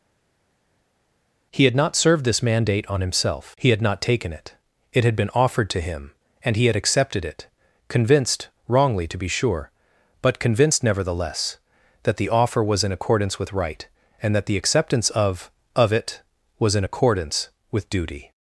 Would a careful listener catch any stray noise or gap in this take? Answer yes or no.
no